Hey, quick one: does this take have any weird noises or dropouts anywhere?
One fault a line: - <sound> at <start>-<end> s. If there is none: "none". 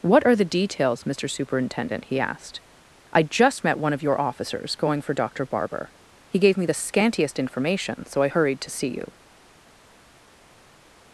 none